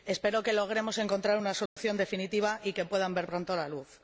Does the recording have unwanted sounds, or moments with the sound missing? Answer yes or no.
yes